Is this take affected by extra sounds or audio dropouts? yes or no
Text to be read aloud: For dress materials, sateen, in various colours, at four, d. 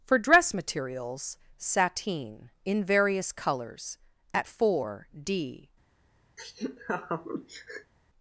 yes